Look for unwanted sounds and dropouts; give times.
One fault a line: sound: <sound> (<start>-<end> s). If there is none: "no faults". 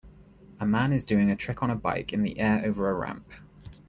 no faults